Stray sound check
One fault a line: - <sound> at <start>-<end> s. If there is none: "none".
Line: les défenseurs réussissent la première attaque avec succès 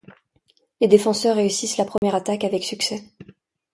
- dropout at 2.0-2.0 s